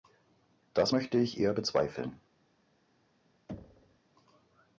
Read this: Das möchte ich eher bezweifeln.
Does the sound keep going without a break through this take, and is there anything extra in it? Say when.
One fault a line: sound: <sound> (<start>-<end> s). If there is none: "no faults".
sound: thud (3.5-4.0 s)